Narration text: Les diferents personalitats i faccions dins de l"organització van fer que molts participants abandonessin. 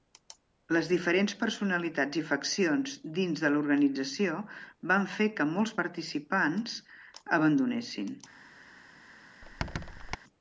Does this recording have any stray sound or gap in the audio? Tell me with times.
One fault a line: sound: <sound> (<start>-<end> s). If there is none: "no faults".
sound: squeak (9.4-10.2 s)